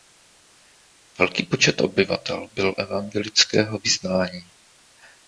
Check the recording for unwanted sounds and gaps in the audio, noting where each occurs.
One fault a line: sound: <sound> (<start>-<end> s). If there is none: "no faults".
no faults